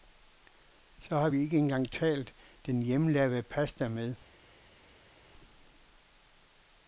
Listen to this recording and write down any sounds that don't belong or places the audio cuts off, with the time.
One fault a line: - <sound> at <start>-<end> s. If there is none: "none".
none